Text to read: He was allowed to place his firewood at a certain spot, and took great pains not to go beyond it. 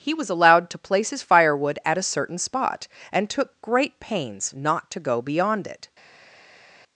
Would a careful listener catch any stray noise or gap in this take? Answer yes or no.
no